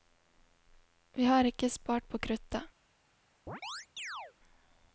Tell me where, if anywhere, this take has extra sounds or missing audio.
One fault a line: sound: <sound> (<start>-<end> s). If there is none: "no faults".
sound: chirp (3.5-4.3 s)